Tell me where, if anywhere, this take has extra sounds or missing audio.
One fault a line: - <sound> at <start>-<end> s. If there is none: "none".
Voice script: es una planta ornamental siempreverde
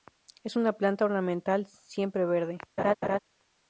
- laugh at 2.8-3.2 s